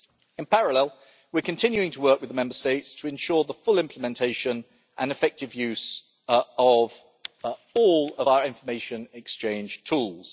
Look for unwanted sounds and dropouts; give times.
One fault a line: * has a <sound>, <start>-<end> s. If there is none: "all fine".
all fine